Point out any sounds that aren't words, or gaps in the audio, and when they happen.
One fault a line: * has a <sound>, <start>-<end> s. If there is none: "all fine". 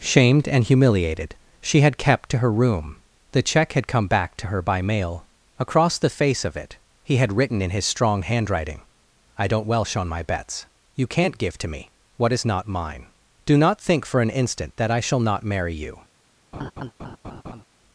* has a laugh, 16.5-17.6 s